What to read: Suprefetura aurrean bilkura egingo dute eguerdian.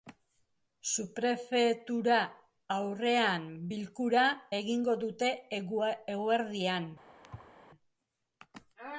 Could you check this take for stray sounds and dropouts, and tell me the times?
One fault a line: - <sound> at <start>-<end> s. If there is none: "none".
- thud at 7.2-7.5 s